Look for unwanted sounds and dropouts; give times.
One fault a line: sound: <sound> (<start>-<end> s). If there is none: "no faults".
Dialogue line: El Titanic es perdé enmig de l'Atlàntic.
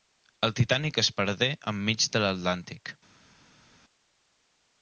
no faults